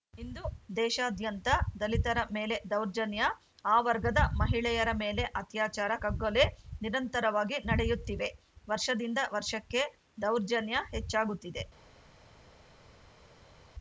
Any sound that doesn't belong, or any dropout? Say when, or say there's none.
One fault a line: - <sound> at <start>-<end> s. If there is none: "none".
none